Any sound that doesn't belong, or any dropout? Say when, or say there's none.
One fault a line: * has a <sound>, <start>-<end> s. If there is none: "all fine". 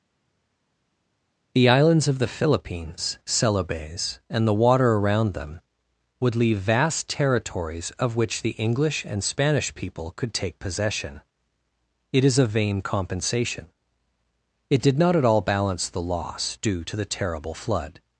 all fine